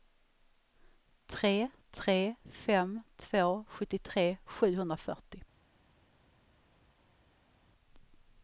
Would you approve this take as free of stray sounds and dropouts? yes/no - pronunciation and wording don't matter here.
yes